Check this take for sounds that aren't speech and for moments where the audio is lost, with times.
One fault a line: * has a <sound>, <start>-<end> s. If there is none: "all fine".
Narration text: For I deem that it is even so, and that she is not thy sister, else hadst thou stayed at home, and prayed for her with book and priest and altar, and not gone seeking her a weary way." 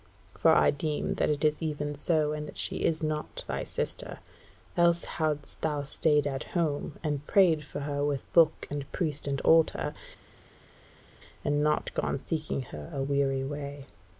all fine